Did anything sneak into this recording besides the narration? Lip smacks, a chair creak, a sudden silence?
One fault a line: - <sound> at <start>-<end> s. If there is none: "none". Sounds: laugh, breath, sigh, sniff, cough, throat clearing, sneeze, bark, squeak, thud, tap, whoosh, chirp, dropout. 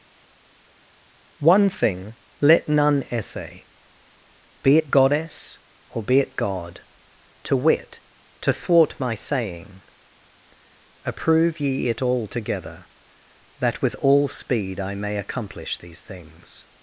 none